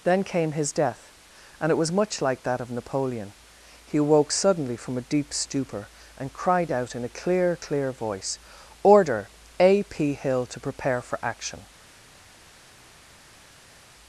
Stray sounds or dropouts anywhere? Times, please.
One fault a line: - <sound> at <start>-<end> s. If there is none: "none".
none